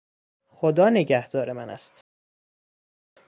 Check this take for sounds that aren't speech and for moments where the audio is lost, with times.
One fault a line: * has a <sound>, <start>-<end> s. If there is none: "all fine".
all fine